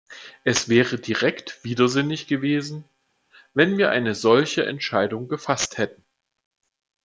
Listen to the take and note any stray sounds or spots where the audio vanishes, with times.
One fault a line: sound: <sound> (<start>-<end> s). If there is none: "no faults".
no faults